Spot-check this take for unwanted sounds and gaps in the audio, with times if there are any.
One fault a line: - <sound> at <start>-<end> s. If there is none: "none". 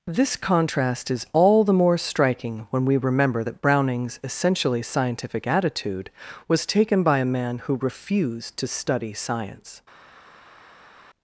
none